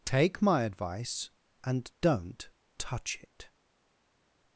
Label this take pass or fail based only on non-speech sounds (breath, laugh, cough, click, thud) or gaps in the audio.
pass